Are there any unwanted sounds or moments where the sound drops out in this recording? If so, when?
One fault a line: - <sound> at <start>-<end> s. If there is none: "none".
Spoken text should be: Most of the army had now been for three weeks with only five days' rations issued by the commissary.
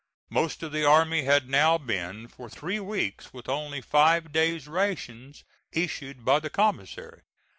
none